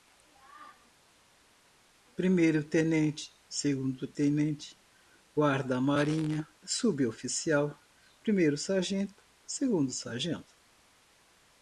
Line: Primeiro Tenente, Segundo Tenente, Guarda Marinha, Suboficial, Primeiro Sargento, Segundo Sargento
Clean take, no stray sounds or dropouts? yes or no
yes